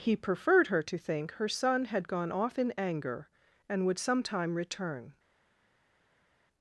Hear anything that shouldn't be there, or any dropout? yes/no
no